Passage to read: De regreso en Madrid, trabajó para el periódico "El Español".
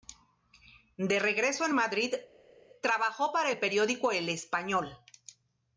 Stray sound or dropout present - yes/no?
no